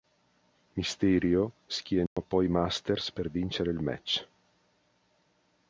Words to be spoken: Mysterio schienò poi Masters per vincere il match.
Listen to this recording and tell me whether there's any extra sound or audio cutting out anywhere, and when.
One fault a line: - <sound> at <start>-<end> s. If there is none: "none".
- dropout at 2.1-2.2 s